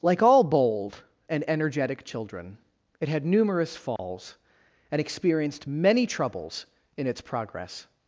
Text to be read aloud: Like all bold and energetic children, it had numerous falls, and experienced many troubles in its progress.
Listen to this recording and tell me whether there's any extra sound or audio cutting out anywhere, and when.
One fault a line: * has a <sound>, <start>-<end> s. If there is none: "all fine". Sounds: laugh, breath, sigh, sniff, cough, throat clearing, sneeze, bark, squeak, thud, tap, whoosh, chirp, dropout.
* has a dropout, 4.0-4.0 s